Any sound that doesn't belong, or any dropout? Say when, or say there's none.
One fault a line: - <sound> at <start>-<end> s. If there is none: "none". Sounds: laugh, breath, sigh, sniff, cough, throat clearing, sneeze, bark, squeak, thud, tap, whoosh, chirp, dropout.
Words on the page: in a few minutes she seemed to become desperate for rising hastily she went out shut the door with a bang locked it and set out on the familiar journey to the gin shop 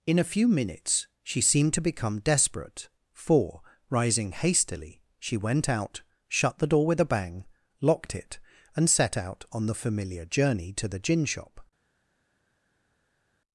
none